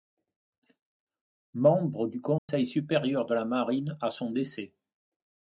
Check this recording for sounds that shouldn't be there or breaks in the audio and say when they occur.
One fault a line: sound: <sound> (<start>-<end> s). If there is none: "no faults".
sound: dropout (2.4-2.5 s)